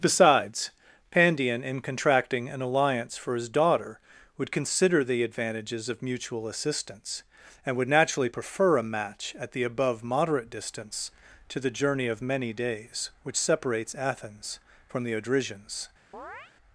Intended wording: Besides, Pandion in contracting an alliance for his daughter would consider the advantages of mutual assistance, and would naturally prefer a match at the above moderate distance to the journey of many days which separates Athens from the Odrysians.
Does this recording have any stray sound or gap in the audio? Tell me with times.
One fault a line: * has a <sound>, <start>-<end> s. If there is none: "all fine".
* has a chirp, 16.1-16.5 s